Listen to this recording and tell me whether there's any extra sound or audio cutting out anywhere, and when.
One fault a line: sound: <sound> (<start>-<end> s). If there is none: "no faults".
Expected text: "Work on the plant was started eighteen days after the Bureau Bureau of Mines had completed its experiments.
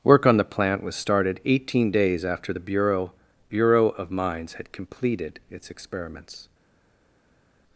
no faults